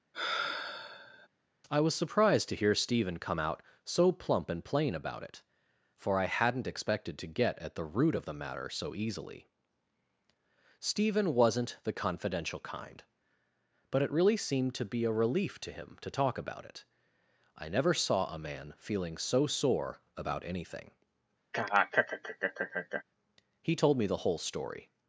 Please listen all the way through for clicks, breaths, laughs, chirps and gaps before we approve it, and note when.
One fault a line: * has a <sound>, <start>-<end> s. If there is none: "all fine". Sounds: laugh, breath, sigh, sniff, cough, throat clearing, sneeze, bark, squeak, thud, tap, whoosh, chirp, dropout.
* has a sigh, 0.1-1.3 s
* has a laugh, 21.5-23.0 s